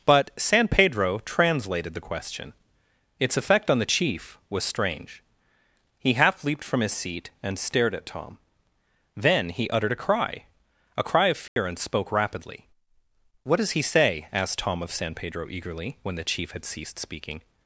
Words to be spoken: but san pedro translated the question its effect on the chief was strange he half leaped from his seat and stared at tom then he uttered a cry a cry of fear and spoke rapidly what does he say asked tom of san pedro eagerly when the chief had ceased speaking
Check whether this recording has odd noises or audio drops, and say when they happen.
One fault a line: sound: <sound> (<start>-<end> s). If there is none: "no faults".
sound: dropout (11.5-11.6 s)